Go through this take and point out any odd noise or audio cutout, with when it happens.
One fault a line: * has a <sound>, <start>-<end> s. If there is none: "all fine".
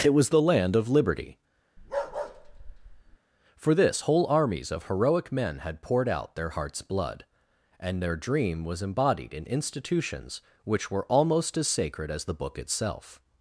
* has a bark, 1.8-3.2 s